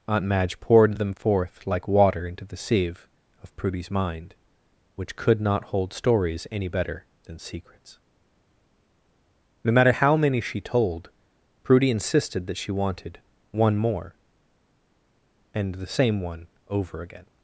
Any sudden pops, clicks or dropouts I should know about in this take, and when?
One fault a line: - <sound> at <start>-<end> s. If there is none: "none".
none